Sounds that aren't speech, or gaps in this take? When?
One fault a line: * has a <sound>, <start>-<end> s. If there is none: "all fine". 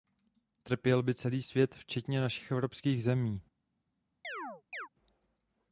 * has a chirp, 4.2-4.9 s